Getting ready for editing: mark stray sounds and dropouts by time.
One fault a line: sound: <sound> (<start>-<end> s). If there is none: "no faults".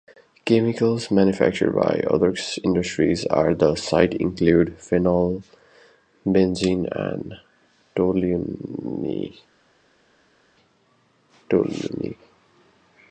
no faults